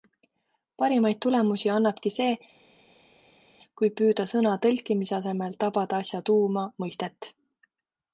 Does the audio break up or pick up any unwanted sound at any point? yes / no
no